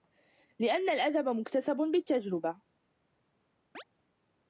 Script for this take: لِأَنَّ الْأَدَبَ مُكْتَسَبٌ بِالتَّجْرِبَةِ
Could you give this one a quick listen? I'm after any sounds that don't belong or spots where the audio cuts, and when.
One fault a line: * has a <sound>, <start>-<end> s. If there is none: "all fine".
* has a chirp, 3.7-3.8 s